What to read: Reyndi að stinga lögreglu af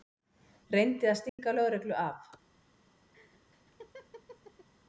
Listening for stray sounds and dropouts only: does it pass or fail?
fail